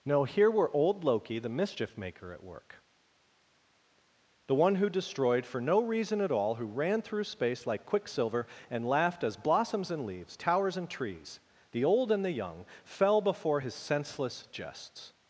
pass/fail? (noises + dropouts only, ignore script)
pass